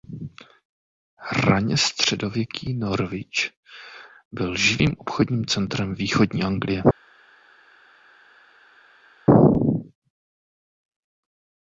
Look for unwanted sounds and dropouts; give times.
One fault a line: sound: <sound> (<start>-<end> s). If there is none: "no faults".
no faults